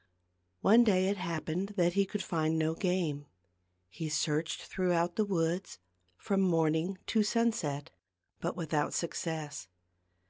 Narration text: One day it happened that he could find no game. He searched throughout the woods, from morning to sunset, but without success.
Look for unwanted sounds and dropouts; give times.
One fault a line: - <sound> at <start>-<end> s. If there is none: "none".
none